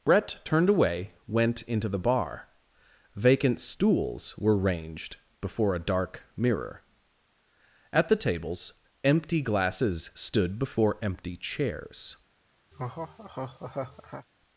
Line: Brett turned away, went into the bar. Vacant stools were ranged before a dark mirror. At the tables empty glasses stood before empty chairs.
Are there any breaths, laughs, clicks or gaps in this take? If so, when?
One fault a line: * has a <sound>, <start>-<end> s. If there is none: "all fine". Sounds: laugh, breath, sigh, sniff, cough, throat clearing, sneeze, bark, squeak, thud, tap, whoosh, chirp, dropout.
* has a laugh, 12.7-14.3 s